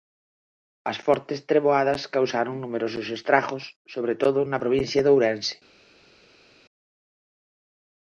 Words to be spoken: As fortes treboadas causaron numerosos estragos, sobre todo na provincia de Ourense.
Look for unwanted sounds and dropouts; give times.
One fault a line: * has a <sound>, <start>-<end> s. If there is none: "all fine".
all fine